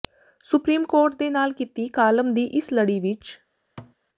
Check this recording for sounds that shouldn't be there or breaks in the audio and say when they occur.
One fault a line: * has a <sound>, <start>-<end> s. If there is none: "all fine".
* has a thud, 3.8-4.0 s